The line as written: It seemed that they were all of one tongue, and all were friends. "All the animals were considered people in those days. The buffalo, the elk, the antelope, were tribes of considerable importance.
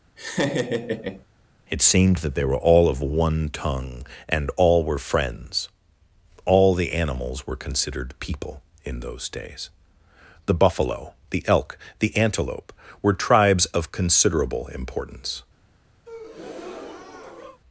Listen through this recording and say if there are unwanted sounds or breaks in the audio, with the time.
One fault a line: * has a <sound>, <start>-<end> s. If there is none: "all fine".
* has a laugh, 0.2-1.2 s
* has a breath, 16.1-17.6 s